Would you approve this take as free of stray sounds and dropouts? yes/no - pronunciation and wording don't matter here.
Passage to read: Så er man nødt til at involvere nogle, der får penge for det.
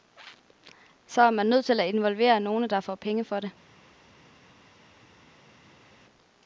yes